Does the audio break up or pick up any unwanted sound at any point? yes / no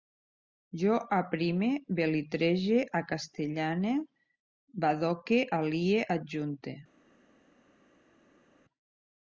no